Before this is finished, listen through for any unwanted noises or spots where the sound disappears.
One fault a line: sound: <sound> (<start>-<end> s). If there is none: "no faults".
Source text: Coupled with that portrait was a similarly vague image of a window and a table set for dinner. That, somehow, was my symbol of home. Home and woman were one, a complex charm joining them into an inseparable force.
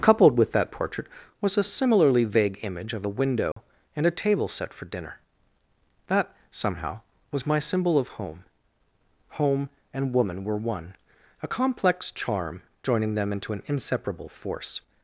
sound: dropout (3.5-3.6 s)